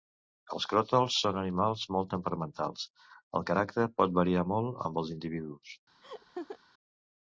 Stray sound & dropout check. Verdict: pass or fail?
fail